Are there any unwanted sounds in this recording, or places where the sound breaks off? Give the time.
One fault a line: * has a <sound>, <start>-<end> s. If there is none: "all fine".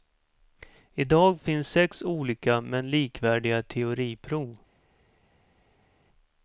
all fine